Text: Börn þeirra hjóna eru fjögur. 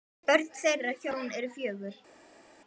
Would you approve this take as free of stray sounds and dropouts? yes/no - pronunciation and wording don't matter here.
yes